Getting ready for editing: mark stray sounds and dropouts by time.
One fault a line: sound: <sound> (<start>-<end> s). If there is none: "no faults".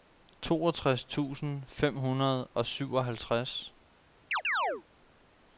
sound: chirp (4.3-4.8 s)